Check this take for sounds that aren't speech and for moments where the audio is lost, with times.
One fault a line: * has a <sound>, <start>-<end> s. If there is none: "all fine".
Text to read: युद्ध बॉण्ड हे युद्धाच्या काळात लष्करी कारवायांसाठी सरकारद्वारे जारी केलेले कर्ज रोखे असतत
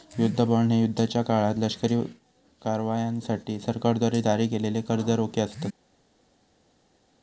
all fine